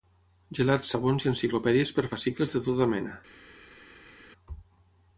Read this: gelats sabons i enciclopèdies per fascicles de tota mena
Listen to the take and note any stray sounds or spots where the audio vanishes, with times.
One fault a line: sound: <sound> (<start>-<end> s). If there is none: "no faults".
no faults